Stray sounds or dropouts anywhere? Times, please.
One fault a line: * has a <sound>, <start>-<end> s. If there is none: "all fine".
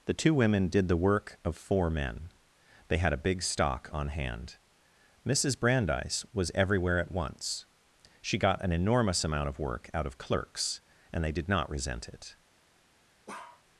* has a bark, 13.3-13.6 s